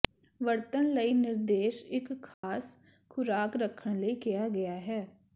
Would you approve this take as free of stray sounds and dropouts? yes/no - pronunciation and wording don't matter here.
no